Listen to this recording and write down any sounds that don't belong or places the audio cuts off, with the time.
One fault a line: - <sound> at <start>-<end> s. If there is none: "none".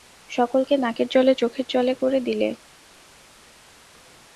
none